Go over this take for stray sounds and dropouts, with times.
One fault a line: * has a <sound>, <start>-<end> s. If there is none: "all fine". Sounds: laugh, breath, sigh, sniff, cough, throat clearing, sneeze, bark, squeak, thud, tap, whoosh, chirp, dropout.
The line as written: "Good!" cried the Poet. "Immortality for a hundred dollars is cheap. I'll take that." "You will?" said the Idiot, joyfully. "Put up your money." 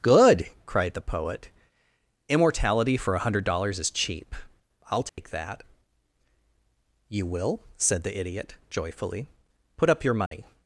* has a dropout, 5.1-5.2 s
* has a dropout, 10.3-10.3 s